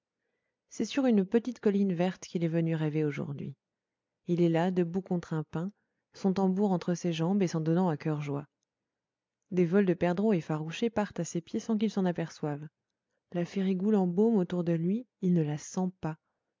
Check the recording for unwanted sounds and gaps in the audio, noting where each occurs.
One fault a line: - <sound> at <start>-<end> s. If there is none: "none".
none